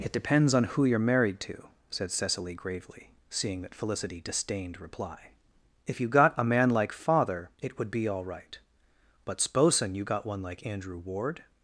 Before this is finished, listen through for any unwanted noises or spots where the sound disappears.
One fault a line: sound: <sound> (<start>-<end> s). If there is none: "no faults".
no faults